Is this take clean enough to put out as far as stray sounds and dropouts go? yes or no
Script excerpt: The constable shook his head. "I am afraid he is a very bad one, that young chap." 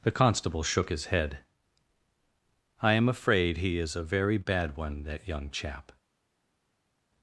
yes